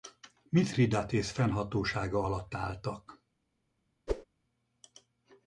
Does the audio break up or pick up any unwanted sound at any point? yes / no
yes